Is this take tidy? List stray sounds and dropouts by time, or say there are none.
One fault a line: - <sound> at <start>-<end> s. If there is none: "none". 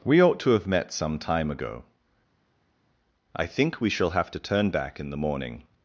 none